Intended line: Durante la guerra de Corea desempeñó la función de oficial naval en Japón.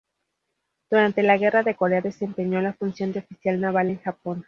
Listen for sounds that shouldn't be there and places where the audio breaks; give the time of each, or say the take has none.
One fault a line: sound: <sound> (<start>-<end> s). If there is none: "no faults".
no faults